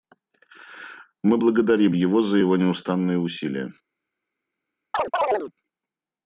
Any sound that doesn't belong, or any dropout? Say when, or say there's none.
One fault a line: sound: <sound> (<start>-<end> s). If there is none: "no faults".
sound: chirp (4.9-5.5 s)